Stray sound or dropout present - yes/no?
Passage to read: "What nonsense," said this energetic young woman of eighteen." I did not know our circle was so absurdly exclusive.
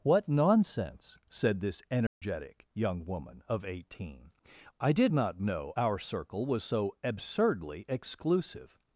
yes